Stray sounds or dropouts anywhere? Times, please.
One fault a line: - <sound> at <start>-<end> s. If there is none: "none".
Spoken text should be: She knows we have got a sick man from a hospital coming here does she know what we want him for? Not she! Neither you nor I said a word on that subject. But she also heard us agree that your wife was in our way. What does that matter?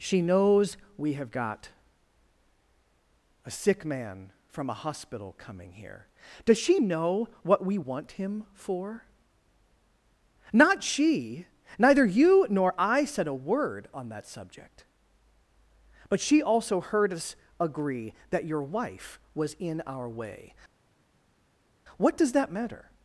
none